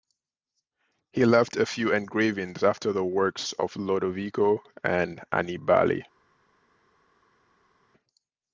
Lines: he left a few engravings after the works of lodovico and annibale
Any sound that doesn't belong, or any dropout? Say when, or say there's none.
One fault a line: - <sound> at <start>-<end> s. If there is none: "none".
none